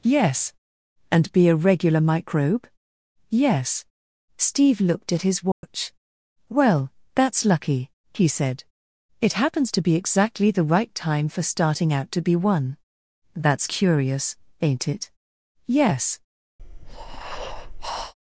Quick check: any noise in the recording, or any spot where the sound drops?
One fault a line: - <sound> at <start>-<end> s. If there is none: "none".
- dropout at 5.5-5.6 s
- breath at 16.6-18.1 s